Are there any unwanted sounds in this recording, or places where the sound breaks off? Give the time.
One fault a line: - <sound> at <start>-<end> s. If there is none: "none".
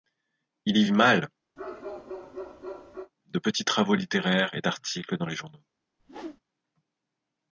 - bark at 1.6-3.1 s
- whoosh at 6.0-6.4 s